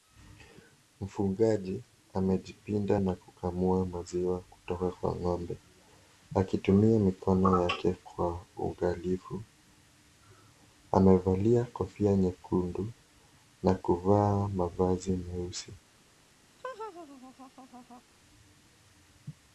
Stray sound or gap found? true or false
true